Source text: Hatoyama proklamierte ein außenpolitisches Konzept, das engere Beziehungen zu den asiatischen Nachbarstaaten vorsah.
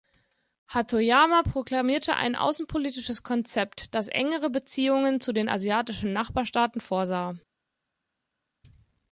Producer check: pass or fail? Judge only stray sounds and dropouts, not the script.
pass